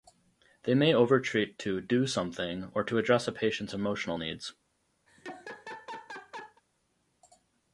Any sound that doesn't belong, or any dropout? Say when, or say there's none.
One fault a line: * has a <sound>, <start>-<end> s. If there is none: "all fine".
* has a laugh, 5.1-6.6 s